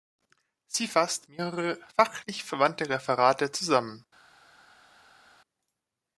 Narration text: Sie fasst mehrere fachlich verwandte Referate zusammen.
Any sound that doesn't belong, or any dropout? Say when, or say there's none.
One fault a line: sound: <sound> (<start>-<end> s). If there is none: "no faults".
no faults